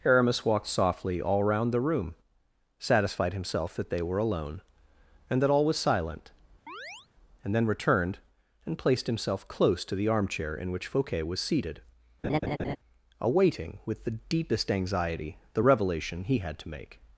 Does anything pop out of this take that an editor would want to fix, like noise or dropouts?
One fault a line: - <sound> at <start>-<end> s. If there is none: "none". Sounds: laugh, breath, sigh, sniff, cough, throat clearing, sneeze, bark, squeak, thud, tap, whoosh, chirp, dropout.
- chirp at 6.7-7.1 s
- laugh at 12.2-12.8 s